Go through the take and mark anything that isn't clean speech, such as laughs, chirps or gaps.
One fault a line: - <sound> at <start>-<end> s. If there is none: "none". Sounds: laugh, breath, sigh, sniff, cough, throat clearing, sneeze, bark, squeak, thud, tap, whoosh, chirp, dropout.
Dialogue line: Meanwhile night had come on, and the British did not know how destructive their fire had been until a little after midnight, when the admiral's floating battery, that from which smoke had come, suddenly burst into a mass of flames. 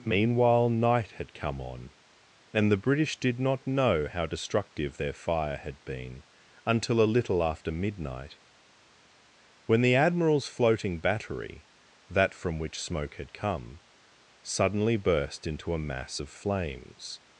none